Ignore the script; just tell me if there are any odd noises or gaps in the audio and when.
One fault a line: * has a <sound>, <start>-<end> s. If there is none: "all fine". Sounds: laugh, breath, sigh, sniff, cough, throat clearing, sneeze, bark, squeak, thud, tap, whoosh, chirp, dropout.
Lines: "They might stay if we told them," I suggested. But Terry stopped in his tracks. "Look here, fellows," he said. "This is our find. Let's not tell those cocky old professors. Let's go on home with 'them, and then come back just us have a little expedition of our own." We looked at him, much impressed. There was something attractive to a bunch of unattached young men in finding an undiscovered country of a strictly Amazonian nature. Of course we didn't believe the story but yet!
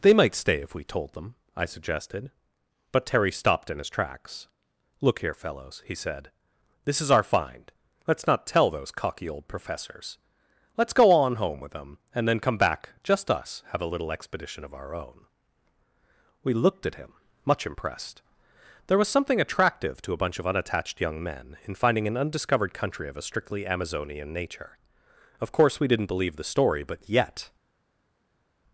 all fine